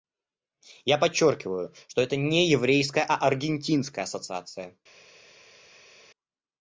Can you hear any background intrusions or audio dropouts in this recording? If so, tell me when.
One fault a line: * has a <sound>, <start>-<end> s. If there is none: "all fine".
all fine